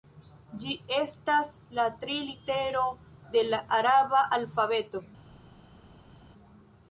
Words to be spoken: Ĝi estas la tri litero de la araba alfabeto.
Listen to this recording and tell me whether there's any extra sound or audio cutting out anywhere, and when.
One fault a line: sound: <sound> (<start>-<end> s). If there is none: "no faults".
no faults